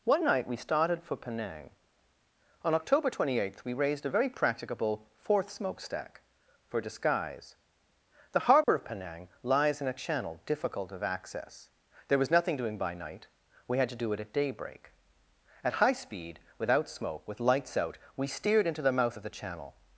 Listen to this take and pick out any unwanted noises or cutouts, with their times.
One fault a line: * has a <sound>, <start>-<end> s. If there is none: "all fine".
* has a dropout, 8.6-8.7 s